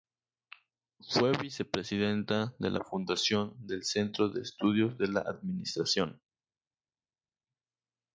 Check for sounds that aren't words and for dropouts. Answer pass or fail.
pass